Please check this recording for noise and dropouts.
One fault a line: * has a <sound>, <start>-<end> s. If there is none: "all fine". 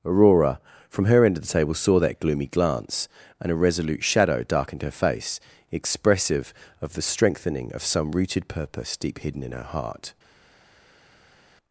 all fine